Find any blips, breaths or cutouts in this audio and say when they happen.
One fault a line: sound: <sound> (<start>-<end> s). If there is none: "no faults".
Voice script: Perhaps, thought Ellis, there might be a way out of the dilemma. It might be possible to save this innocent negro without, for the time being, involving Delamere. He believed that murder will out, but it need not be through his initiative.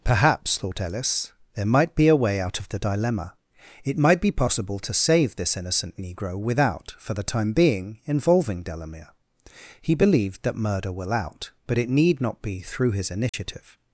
sound: dropout (13.3-13.3 s)